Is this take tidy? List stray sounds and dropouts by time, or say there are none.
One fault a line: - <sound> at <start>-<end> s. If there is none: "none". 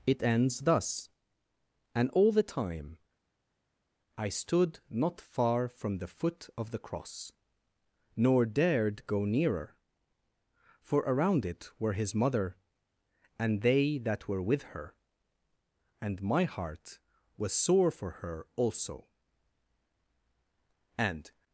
none